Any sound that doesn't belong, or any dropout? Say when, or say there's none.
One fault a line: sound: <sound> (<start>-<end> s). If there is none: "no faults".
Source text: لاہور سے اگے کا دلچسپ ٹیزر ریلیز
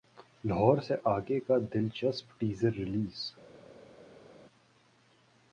no faults